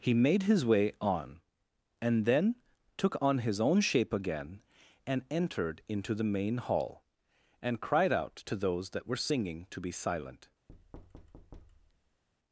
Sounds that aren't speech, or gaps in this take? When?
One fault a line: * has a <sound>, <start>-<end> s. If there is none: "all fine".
* has a thud, 10.7-12.2 s